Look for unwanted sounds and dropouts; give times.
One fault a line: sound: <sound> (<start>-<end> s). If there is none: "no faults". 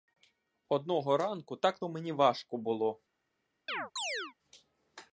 sound: chirp (3.7-4.3 s)